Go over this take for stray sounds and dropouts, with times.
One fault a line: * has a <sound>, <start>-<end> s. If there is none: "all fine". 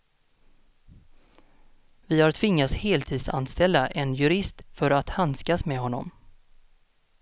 all fine